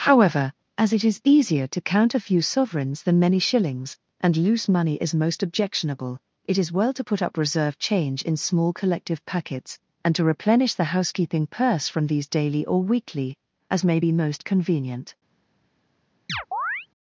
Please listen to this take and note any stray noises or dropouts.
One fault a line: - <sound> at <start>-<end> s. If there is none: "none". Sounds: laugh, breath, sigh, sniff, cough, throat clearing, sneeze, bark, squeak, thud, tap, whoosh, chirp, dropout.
- chirp at 16.3-16.9 s